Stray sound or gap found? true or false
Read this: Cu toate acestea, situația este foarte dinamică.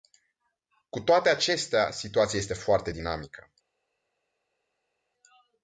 false